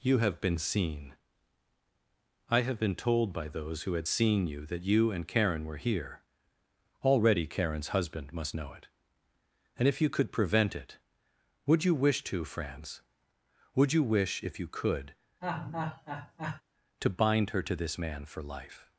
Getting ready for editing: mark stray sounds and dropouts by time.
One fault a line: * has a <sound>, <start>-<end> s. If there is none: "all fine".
* has a laugh, 15.4-16.6 s